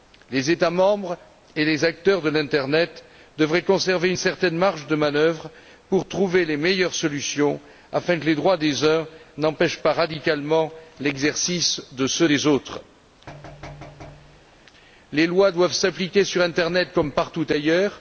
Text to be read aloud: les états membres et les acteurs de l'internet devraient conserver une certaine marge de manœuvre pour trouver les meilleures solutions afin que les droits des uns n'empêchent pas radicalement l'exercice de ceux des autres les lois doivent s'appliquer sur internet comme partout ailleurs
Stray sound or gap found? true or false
true